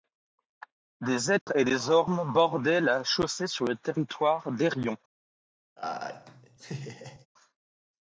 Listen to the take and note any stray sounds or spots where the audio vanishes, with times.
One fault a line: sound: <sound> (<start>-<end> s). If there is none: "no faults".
sound: dropout (1.4-1.5 s)
sound: laugh (5.8-7.3 s)